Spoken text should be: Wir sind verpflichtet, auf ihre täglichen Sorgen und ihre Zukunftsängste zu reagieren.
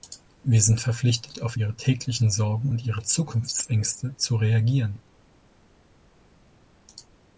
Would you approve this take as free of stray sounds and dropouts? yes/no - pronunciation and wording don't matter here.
yes